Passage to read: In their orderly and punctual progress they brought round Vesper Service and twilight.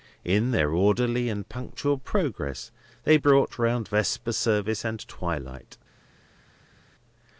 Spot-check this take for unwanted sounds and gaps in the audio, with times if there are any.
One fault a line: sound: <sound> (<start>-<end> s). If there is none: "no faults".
no faults